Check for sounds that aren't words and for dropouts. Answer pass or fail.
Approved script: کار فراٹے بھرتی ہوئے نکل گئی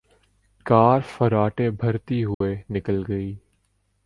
fail